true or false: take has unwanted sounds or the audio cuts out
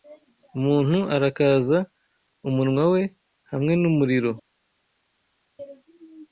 false